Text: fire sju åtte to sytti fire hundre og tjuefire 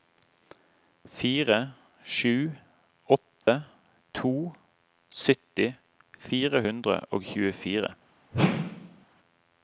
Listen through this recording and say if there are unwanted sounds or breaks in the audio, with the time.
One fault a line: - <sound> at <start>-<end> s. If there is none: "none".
- dropout at 3.4-3.5 s
- whoosh at 8.3-9.1 s